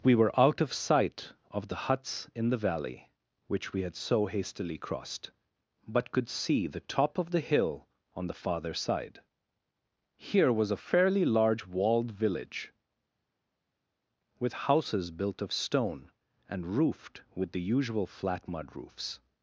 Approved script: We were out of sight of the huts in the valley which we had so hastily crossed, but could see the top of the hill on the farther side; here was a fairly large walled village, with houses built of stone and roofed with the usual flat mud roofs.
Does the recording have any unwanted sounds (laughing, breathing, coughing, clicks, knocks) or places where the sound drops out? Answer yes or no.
no